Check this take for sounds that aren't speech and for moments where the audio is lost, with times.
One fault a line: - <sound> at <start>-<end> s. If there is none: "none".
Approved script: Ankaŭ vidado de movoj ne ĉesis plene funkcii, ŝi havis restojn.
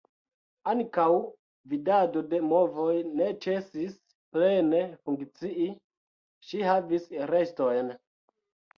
none